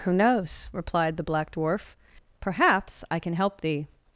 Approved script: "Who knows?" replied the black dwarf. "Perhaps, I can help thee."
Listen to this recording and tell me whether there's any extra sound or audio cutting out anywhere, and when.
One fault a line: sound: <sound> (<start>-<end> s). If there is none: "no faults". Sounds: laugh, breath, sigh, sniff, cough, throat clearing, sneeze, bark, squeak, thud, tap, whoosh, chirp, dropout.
no faults